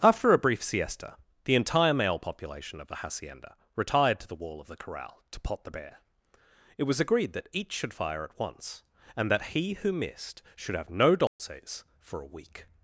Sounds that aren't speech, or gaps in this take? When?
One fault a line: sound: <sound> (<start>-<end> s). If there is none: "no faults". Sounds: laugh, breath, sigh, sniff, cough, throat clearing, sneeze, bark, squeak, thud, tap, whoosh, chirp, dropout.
sound: dropout (11.3-11.4 s)